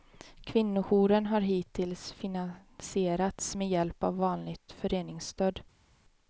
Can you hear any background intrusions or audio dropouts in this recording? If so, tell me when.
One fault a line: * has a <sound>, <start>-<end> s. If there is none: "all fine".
all fine